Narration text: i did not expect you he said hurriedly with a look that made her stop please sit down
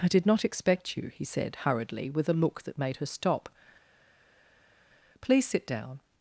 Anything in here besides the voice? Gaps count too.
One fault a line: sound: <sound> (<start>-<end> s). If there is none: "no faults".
no faults